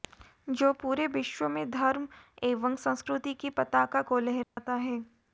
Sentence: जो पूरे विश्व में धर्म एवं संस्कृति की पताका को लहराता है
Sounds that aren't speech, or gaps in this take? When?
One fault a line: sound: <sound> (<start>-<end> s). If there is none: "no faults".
sound: dropout (4.4-4.6 s)